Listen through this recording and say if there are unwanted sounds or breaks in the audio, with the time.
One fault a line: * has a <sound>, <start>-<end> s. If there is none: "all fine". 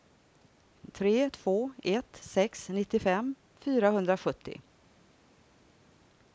all fine